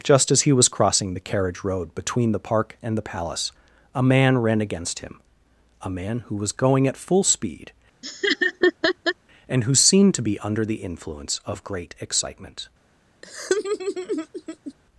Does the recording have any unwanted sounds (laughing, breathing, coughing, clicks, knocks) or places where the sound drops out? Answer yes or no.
yes